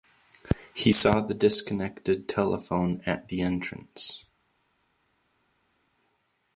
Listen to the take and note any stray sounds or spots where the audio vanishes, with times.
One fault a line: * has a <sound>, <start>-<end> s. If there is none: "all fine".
all fine